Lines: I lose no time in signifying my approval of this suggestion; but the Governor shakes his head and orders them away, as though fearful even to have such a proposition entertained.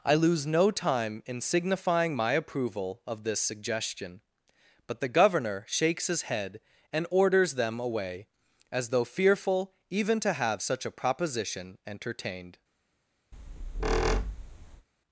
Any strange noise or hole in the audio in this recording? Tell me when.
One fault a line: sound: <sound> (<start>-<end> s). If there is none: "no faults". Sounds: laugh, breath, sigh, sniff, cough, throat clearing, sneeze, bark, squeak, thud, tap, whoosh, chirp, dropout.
sound: squeak (13.3-14.9 s)